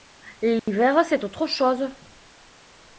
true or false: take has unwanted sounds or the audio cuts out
true